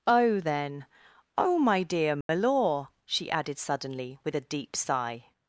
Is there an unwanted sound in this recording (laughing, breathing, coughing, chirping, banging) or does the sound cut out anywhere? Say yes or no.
yes